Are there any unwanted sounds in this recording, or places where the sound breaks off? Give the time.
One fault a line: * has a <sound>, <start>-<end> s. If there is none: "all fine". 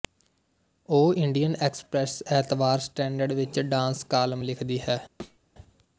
* has a thud, 5.2-5.4 s